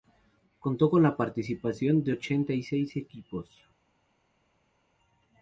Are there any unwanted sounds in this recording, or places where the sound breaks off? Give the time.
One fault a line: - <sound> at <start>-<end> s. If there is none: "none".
none